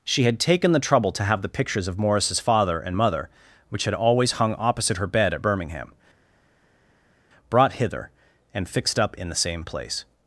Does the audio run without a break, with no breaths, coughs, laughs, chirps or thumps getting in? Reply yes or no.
yes